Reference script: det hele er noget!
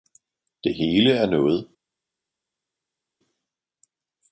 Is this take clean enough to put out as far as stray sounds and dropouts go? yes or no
yes